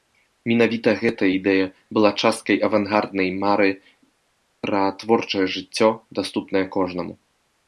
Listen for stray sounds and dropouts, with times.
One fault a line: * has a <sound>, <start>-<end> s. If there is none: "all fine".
all fine